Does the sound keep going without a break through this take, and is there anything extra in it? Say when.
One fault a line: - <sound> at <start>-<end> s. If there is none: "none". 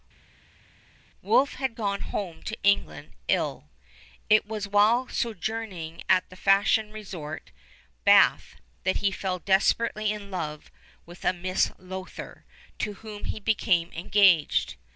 none